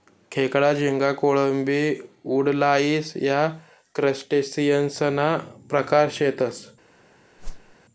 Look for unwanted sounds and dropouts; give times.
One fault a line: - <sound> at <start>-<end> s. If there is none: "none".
- whoosh at 7.4-7.7 s